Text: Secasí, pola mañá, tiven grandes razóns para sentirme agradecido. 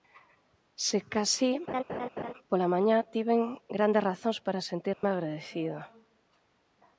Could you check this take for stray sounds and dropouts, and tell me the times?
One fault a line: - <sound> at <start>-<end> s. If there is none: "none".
- laugh at 1.7-2.3 s
- dropout at 4.9-5.0 s